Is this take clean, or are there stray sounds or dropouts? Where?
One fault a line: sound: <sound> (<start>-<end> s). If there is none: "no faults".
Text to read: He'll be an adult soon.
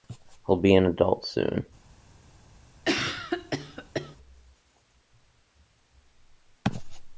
sound: cough (2.8-4.2 s)